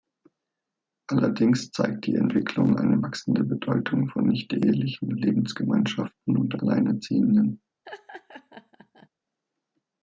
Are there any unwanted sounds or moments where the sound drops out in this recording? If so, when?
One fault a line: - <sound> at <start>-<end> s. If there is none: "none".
- laugh at 7.9-9.1 s